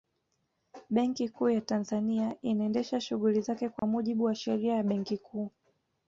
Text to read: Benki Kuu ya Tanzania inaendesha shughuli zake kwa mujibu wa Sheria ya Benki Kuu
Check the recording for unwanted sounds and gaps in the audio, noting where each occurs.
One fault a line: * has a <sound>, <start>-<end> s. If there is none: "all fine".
* has a dropout, 3.8-3.8 s